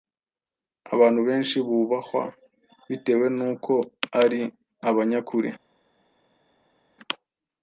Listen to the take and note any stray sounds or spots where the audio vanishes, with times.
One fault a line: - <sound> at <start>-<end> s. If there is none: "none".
none